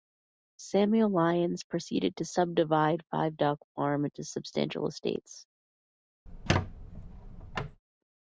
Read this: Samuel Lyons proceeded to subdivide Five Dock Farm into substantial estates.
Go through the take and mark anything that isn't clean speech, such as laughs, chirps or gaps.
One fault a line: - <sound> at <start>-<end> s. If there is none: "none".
- squeak at 6.3-7.8 s